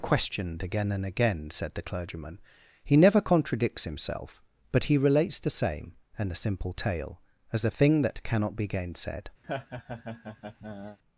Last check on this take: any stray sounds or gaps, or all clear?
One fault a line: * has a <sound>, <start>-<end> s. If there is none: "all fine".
* has a laugh, 9.4-11.0 s